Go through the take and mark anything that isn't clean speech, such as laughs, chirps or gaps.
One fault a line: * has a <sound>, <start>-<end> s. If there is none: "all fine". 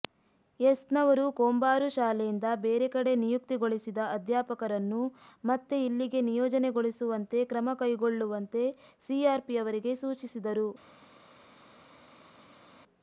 all fine